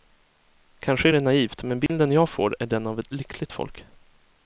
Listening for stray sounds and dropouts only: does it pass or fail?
fail